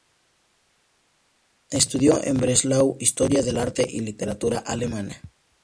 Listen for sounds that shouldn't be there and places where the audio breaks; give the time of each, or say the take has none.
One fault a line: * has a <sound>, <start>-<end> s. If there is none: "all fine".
all fine